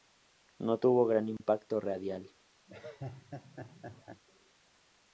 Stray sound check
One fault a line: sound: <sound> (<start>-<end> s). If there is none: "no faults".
sound: dropout (1.4-1.4 s)
sound: laugh (2.7-4.2 s)